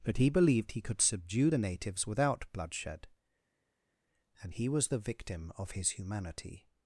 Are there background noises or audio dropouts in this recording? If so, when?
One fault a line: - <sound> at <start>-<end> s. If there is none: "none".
none